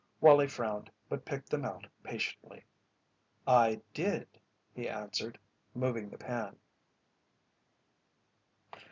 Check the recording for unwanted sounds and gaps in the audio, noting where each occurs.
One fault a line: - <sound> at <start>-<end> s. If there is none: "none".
none